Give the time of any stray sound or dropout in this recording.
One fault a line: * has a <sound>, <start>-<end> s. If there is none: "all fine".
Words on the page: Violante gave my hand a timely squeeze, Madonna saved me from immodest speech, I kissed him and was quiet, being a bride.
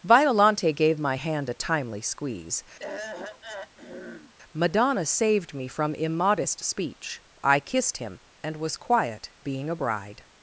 * has a throat clearing, 2.8-4.3 s